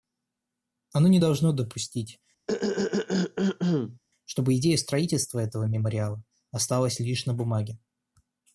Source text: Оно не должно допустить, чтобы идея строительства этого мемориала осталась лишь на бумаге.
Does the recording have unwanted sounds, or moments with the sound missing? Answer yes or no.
yes